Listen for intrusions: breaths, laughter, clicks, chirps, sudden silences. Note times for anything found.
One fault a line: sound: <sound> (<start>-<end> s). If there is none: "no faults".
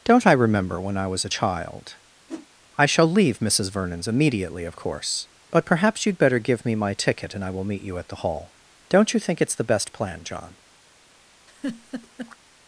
sound: whoosh (2.3-2.5 s)
sound: laugh (11.5-12.4 s)